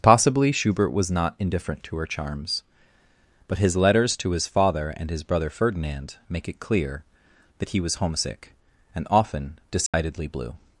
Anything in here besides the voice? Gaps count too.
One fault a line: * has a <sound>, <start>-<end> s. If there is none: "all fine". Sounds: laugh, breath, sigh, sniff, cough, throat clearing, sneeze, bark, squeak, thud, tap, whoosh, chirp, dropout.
* has a dropout, 9.9-9.9 s